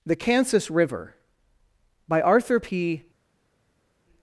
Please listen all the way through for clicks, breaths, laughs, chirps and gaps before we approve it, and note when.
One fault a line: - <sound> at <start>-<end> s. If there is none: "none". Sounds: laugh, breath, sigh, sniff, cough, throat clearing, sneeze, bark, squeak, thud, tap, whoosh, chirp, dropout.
none